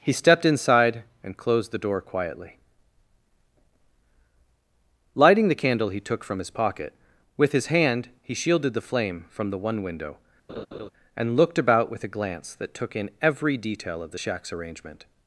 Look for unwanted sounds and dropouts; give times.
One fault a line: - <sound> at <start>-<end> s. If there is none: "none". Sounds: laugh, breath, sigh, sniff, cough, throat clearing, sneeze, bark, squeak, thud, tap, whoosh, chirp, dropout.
- laugh at 10.5-10.9 s